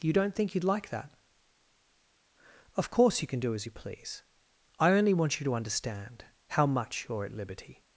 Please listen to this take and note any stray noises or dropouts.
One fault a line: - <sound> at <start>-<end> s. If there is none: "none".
none